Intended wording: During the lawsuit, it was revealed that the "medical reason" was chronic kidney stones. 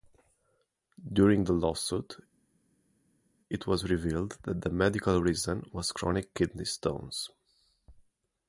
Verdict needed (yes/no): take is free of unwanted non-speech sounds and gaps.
yes